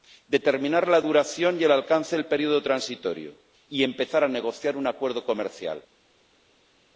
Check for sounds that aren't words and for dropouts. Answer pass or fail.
pass